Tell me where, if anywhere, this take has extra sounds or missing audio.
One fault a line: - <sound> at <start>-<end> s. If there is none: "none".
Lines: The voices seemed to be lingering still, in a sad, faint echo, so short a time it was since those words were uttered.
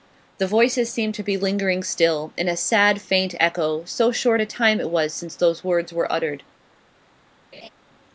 - laugh at 7.5-7.7 s